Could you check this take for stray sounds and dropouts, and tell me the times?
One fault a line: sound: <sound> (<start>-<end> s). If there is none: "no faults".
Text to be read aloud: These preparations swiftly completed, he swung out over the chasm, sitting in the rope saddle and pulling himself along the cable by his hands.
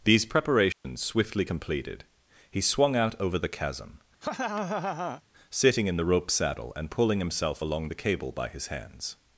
sound: dropout (0.7-0.8 s)
sound: laugh (4.2-5.2 s)